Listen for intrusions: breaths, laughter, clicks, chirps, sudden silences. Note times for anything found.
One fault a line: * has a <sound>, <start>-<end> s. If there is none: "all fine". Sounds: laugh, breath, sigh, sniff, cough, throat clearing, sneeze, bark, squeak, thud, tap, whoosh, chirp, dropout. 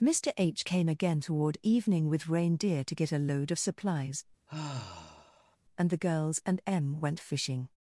* has a sigh, 4.5-5.6 s